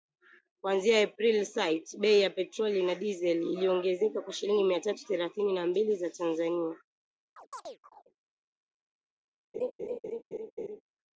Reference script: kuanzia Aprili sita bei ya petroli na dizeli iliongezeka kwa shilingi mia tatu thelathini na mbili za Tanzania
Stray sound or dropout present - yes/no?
yes